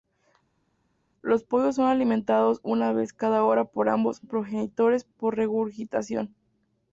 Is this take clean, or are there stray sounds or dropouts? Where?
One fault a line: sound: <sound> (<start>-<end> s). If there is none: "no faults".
no faults